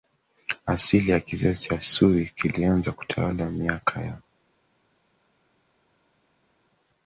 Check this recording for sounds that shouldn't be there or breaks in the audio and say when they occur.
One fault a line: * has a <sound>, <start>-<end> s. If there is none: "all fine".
all fine